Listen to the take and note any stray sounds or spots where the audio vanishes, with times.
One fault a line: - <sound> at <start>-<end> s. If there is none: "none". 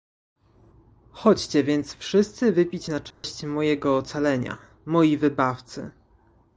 - dropout at 3.1-3.2 s